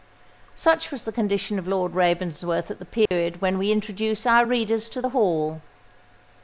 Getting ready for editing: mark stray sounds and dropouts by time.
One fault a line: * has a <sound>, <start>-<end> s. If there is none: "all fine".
* has a dropout, 3.1-3.1 s